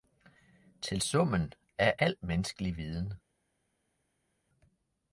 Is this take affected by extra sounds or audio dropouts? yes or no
no